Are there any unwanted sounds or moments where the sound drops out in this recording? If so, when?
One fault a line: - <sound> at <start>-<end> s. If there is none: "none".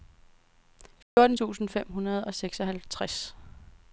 - dropout at 1.0-1.2 s